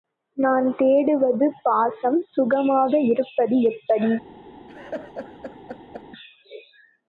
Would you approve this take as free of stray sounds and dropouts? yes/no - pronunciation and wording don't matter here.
no